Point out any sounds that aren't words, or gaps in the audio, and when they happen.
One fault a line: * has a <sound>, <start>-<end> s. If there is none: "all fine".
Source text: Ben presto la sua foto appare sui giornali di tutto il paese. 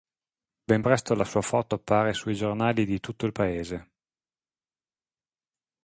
all fine